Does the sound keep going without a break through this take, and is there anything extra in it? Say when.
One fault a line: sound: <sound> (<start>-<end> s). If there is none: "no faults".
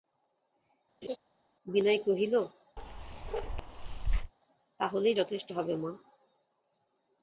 sound: laugh (1.0-1.2 s)
sound: bark (2.8-4.3 s)